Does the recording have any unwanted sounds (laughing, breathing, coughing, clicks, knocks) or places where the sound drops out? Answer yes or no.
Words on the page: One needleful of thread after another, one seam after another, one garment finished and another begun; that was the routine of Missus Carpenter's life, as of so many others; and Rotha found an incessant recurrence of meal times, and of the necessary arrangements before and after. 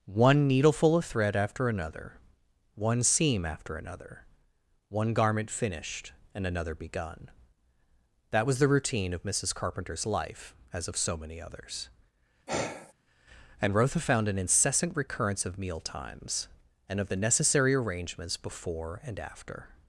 yes